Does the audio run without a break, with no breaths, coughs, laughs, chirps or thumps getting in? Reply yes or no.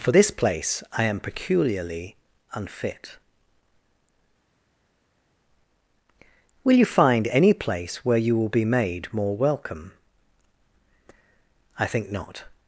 yes